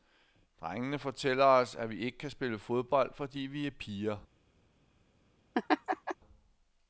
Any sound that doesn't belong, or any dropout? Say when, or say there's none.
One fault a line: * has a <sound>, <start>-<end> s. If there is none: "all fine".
* has a laugh, 5.5-6.2 s